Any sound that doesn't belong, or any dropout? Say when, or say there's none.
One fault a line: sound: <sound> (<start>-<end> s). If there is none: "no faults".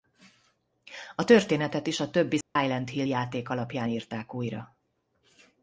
sound: dropout (2.4-2.6 s)